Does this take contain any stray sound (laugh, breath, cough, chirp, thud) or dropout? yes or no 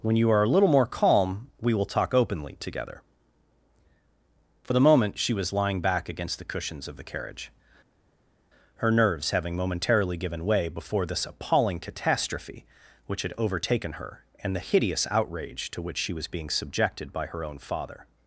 no